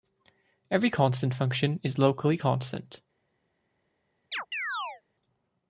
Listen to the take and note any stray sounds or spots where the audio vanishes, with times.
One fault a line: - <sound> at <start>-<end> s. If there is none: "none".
- chirp at 4.3-5.0 s